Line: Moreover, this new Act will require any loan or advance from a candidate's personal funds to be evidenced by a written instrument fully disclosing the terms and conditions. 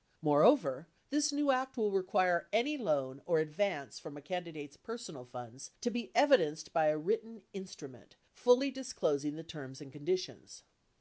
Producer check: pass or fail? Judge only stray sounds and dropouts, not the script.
pass